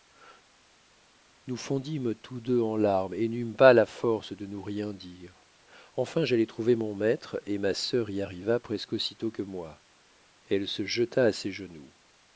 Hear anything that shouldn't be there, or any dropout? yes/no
no